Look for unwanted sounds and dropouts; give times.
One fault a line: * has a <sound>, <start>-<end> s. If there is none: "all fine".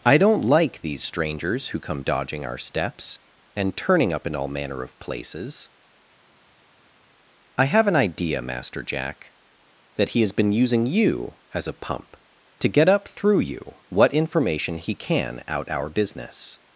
all fine